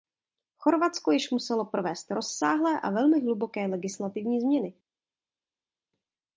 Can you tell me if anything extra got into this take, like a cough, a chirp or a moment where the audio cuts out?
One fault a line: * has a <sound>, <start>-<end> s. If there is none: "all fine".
all fine